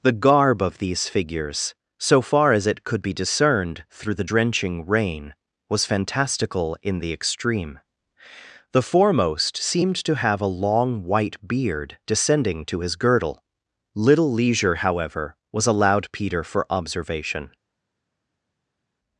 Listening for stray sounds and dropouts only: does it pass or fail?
pass